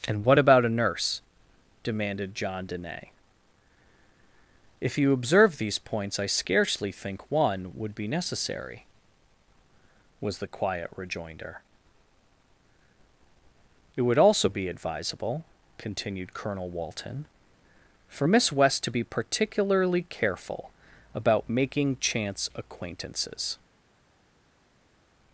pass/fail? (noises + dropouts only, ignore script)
pass